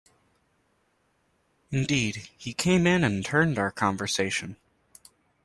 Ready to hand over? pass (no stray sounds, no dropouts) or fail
pass